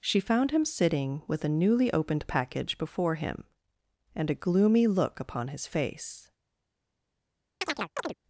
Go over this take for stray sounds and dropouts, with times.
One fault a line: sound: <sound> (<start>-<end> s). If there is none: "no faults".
sound: chirp (7.6-8.2 s)